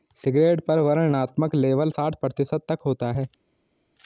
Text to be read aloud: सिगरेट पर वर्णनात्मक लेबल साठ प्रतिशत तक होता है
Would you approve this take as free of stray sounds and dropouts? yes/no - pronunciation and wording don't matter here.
yes